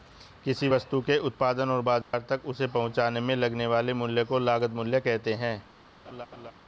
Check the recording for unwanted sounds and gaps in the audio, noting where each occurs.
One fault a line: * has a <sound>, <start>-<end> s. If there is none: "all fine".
* has a dropout, 2.0-2.1 s
* has a laugh, 6.0-6.5 s